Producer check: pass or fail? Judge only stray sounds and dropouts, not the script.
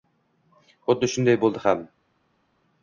pass